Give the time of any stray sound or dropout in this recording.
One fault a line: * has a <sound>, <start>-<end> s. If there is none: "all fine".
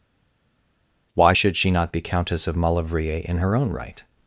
all fine